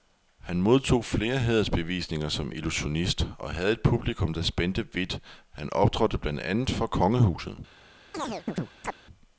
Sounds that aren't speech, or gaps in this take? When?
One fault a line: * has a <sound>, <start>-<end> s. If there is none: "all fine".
* has a chirp, 8.1-9.0 s